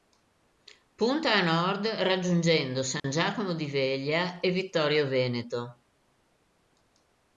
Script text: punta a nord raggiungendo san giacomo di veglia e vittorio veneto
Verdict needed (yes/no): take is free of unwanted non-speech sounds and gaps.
no